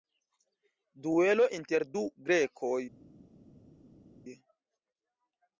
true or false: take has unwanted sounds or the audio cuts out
false